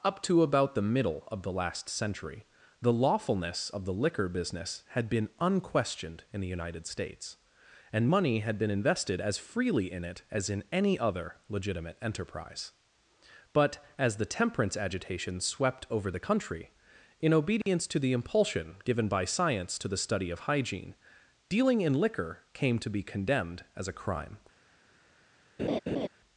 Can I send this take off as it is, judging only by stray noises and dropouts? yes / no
no